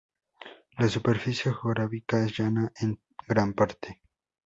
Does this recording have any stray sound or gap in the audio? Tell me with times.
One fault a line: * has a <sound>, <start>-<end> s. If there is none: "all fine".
all fine